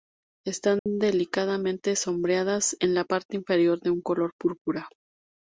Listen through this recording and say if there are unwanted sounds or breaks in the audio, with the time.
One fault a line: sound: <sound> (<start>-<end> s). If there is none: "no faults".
sound: dropout (0.8-0.9 s)